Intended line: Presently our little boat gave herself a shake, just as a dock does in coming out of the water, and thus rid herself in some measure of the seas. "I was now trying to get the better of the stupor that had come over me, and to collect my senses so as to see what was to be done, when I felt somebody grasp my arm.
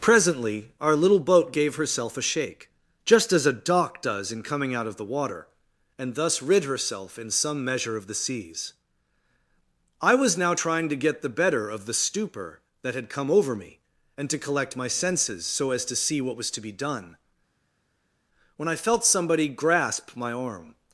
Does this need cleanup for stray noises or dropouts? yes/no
no